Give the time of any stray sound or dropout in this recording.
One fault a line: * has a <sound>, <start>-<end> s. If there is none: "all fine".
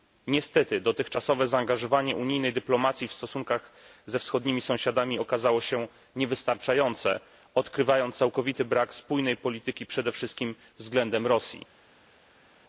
all fine